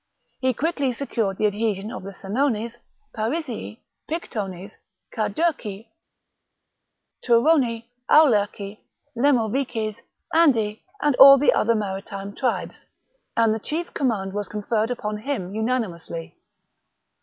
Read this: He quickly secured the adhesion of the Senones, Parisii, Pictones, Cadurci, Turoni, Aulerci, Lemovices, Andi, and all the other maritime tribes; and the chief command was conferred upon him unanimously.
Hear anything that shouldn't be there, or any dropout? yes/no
no